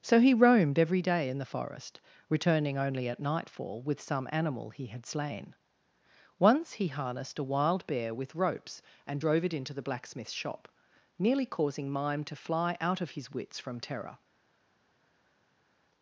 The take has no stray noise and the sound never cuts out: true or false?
true